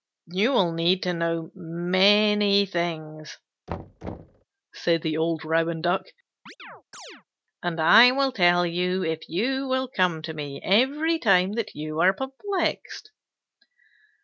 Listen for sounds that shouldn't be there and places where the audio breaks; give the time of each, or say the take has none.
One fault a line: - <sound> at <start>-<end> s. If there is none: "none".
- thud at 3.7-4.4 s
- chirp at 6.5-7.2 s